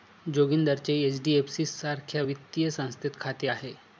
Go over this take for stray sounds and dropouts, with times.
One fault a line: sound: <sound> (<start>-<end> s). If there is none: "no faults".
no faults